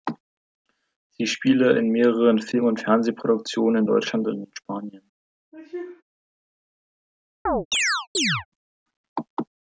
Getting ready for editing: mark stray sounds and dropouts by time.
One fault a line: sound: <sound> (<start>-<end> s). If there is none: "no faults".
sound: sneeze (5.5-6.0 s)
sound: chirp (7.5-8.5 s)